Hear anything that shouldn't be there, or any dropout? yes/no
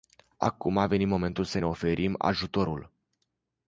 no